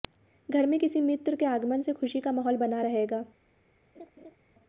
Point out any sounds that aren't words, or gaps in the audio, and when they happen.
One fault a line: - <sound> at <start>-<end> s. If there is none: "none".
- laugh at 3.9-4.4 s